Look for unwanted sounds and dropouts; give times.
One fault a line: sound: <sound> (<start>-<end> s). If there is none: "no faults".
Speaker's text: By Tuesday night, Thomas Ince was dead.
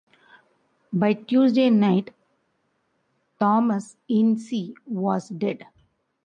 no faults